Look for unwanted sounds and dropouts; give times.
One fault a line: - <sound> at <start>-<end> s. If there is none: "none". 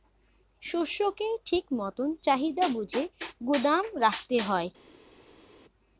none